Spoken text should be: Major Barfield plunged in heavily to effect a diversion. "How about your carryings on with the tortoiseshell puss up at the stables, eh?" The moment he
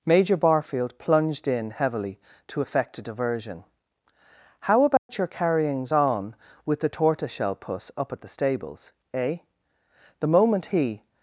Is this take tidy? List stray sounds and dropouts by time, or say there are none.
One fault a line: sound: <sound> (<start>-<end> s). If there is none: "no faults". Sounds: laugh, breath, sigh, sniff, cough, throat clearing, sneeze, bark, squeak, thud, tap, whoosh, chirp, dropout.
sound: dropout (5.0-5.1 s)